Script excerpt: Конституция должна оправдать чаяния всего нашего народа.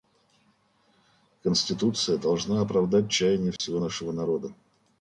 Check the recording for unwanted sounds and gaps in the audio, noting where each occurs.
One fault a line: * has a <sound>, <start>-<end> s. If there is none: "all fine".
* has a dropout, 3.6-3.6 s